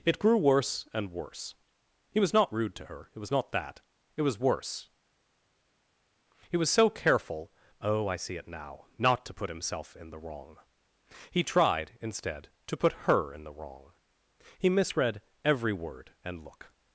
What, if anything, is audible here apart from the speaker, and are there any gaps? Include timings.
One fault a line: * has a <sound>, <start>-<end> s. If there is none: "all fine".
all fine